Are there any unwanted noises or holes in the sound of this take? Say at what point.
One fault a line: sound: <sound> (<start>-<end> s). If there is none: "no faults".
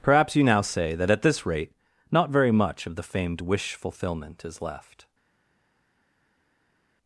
no faults